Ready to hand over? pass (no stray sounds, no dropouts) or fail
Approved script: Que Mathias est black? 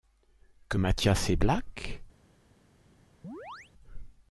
fail